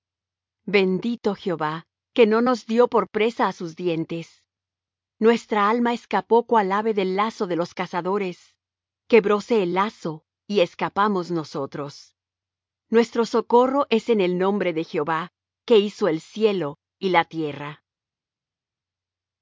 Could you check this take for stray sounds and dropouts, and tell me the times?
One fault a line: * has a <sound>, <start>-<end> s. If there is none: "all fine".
all fine